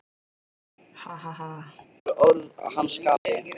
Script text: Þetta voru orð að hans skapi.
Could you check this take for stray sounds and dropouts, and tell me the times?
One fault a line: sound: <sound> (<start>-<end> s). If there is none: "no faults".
sound: laugh (0.9-1.9 s)
sound: dropout (3.2-3.3 s)